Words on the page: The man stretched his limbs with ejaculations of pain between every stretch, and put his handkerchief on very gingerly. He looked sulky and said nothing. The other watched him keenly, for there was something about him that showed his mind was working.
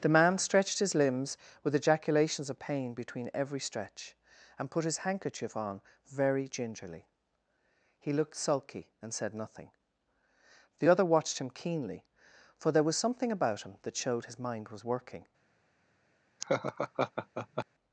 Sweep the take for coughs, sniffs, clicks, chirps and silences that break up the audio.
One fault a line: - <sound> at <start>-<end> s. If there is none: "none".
- laugh at 16.4-17.7 s